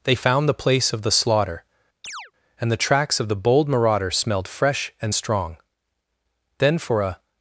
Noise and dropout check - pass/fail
fail